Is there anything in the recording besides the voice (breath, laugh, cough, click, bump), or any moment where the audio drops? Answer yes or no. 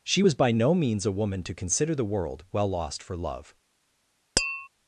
yes